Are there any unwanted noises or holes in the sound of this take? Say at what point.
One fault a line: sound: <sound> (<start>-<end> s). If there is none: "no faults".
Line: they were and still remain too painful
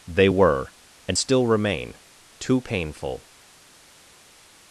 no faults